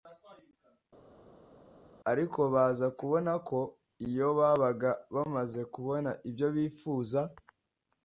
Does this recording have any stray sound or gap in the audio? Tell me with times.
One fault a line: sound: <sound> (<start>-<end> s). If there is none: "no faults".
no faults